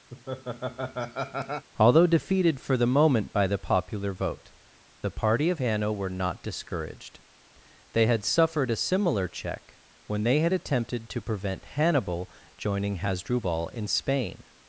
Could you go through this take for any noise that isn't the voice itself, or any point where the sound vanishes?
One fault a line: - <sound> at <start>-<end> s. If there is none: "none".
- laugh at 0.1-1.7 s